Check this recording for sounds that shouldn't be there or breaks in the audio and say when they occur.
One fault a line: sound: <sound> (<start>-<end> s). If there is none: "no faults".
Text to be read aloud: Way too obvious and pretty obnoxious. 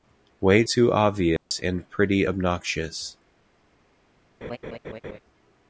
sound: dropout (1.4-1.5 s)
sound: laugh (4.4-5.2 s)